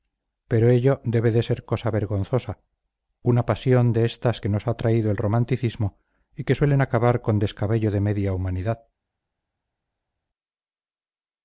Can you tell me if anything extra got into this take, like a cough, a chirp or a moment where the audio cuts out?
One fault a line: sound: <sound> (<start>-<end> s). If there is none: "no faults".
no faults